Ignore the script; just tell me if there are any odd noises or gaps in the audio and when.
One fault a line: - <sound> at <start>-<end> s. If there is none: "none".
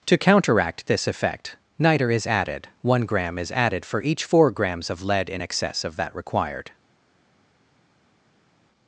none